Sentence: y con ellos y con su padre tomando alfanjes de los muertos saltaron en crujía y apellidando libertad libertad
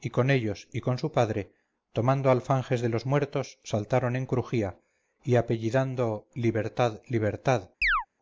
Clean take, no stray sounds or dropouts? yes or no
no